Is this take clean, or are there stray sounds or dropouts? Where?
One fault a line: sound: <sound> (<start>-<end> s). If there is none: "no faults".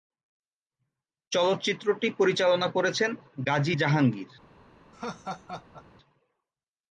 sound: laugh (4.9-5.8 s)